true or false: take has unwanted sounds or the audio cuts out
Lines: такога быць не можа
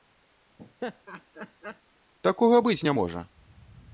true